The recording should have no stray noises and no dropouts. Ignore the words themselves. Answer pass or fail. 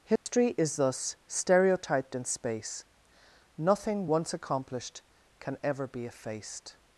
fail